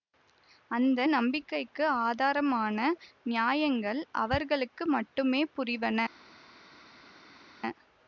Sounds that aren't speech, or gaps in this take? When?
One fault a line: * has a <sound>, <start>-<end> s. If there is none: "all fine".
all fine